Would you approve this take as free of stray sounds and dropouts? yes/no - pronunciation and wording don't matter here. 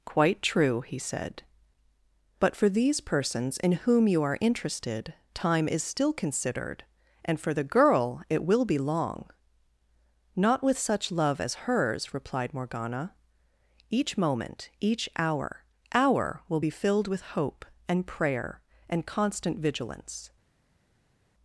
yes